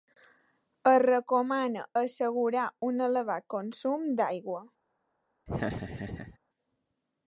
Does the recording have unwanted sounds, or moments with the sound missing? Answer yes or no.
yes